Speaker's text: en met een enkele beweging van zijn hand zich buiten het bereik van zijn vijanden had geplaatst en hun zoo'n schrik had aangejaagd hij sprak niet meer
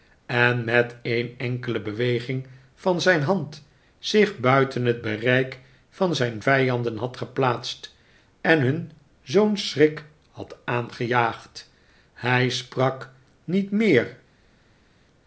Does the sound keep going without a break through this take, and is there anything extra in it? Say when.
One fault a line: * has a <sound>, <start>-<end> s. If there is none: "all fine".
all fine